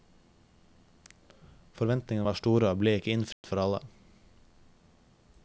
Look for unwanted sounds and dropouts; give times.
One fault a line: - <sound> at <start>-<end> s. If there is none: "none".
- dropout at 3.3-3.4 s